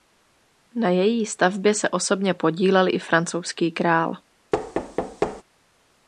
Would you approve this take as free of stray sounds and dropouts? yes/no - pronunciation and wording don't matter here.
no